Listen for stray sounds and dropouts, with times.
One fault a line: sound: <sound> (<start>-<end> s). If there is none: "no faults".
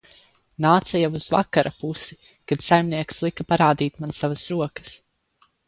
no faults